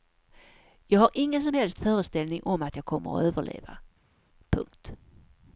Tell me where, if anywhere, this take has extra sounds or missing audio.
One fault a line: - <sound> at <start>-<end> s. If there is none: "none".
none